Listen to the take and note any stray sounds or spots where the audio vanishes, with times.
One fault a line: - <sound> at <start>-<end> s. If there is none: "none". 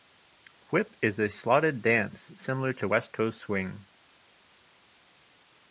none